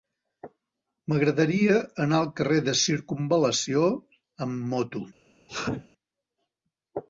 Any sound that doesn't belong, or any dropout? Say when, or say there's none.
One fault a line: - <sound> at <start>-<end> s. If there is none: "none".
- sneeze at 5.5-5.9 s